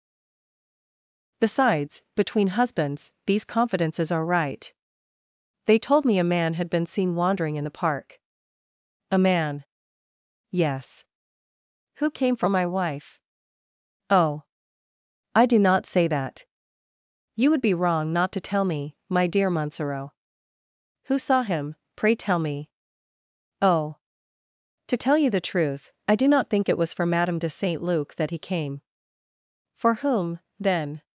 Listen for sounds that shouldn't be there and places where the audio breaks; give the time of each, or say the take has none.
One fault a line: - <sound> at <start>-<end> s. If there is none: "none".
none